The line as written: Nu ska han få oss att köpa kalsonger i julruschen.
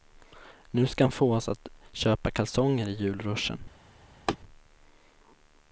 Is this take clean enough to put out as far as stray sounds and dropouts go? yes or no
no